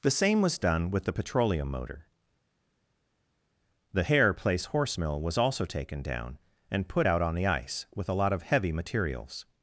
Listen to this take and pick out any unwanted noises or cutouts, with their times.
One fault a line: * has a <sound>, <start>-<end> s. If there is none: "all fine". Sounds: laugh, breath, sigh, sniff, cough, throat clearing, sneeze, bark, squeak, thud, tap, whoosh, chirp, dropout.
all fine